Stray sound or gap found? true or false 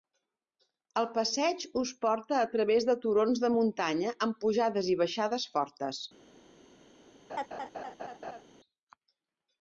true